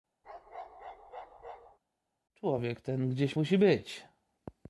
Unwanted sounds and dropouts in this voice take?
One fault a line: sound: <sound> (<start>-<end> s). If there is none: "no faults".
sound: bark (0.2-1.8 s)